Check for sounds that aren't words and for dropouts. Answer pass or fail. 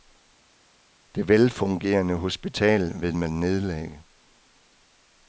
pass